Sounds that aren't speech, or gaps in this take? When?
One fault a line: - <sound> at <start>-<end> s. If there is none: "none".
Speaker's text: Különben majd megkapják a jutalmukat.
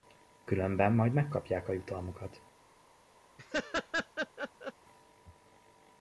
- laugh at 3.4-4.7 s